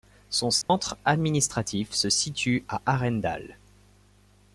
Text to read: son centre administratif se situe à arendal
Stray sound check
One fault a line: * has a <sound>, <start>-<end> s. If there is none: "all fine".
* has a dropout, 0.6-0.7 s